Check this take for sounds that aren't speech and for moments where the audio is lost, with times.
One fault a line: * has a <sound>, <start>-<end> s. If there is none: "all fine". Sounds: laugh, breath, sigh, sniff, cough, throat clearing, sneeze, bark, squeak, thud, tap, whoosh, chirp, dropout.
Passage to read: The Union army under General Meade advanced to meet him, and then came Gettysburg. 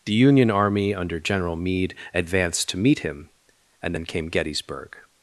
all fine